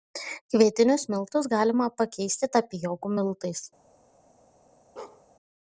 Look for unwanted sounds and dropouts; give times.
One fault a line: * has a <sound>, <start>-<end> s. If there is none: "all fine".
* has a bark, 5.0-5.2 s